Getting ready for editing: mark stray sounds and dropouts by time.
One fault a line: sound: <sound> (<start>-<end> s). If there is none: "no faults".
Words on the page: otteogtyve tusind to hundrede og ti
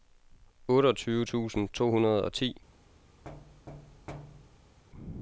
sound: thud (3.2-4.8 s)